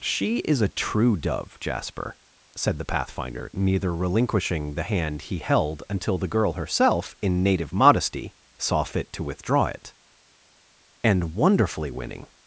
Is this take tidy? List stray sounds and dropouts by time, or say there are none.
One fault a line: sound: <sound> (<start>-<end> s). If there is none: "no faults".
no faults